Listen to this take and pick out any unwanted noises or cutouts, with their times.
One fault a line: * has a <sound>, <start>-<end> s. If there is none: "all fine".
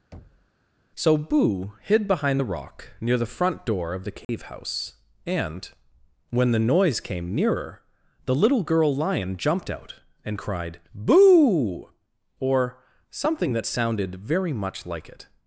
* has a thud, 0.1-0.5 s
* has a dropout, 4.2-4.3 s